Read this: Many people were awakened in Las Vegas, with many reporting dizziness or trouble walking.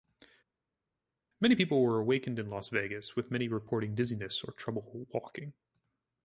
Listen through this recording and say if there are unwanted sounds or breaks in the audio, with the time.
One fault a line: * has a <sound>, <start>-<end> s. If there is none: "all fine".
all fine